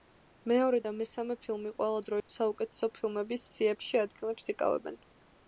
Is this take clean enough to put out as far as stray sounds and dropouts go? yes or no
no